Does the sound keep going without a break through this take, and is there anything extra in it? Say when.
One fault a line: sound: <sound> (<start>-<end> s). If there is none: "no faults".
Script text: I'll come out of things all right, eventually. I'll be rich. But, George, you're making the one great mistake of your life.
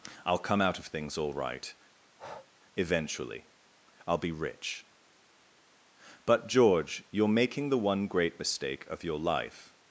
sound: breath (2.0-2.5 s)